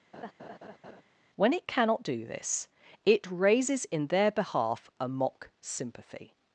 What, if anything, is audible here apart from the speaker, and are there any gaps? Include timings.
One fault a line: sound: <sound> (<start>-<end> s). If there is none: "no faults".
sound: laugh (0.1-1.0 s)